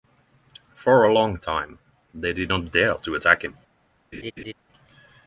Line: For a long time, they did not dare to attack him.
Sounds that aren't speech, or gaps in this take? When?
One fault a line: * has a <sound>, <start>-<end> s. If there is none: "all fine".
* has a laugh, 4.1-4.5 s